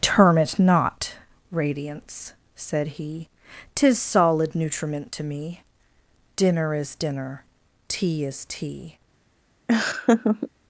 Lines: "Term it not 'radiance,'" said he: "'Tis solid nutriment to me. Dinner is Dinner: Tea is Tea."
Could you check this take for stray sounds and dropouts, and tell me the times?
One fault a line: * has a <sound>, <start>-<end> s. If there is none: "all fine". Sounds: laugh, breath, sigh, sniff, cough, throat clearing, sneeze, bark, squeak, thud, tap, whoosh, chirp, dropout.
* has a laugh, 9.7-10.5 s